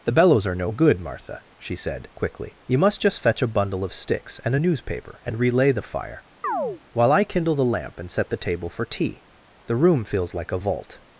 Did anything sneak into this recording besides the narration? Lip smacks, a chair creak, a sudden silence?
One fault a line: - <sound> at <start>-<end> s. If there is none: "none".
- chirp at 6.4-6.8 s